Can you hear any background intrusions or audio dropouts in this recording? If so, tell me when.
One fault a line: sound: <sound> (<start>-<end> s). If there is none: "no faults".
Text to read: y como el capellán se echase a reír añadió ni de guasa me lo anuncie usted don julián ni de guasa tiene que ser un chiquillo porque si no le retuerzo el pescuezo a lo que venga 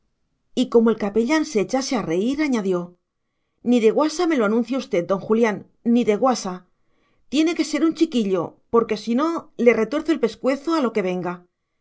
no faults